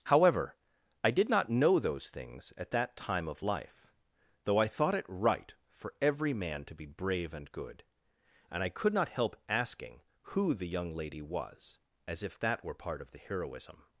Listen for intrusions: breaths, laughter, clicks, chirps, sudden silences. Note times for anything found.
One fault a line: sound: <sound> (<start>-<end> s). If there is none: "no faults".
no faults